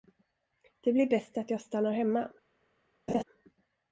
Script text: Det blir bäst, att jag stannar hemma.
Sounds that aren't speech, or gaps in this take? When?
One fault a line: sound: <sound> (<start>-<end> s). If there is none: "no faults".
sound: laugh (3.1-3.2 s)